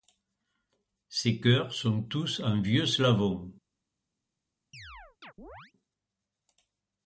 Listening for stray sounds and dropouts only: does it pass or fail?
fail